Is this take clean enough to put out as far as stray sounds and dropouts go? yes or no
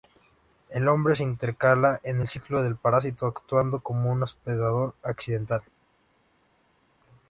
yes